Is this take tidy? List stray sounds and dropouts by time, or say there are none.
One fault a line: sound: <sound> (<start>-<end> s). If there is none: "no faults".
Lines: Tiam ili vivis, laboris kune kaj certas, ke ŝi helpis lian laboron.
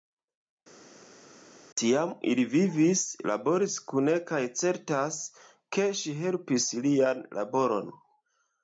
no faults